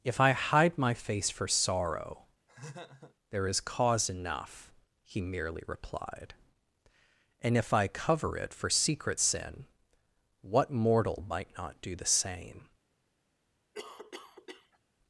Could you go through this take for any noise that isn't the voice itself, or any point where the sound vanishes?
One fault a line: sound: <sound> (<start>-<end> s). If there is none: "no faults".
sound: laugh (2.5-3.2 s)
sound: cough (13.7-14.8 s)